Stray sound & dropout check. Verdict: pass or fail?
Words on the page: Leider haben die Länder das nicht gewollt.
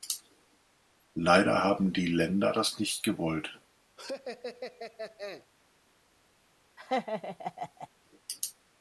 fail